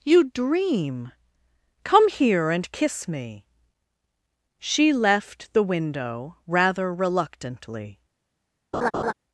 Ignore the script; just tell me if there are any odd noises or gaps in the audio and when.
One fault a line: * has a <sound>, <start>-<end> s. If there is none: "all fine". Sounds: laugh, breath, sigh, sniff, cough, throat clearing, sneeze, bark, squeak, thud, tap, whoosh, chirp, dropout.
* has a laugh, 8.7-9.1 s